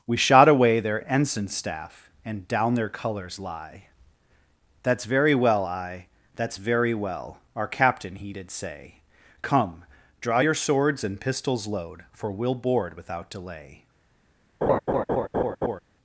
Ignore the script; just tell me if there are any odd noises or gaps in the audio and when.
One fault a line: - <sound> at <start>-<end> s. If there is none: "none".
- laugh at 14.6-15.8 s